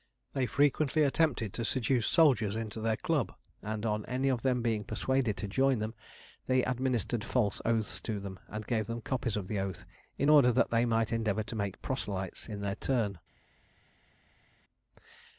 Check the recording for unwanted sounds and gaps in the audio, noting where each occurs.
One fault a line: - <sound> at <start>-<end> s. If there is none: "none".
none